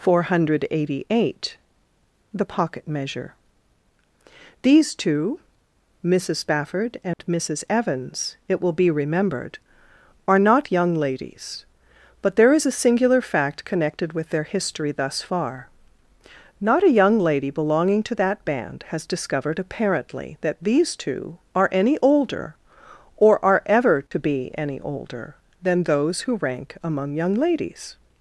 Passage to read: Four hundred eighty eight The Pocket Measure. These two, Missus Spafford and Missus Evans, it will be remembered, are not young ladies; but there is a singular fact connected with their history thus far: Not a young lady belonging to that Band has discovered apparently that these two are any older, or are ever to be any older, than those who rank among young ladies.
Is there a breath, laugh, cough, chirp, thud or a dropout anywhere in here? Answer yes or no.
yes